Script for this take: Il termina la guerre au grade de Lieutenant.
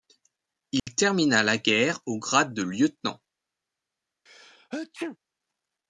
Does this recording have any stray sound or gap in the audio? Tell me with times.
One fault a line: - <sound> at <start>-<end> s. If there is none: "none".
- dropout at 0.8-0.9 s
- sneeze at 4.3-5.2 s